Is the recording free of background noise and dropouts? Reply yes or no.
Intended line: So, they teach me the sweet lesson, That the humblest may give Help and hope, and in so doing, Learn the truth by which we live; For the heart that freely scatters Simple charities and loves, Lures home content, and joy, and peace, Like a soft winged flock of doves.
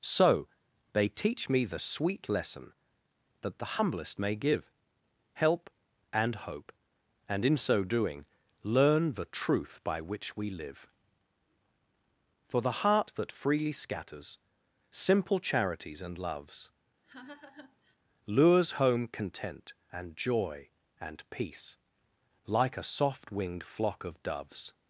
no